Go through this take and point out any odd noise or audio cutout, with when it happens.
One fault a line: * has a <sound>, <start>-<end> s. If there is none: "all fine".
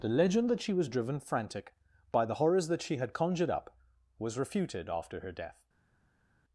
all fine